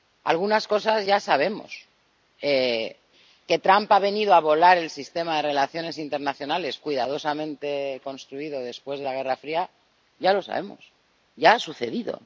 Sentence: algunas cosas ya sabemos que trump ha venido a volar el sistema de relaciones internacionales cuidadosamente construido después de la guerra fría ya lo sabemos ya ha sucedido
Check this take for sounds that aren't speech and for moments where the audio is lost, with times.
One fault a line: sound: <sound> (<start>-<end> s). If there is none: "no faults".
no faults